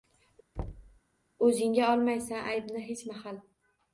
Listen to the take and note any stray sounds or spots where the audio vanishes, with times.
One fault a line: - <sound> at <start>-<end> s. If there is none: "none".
- thud at 0.6-1.0 s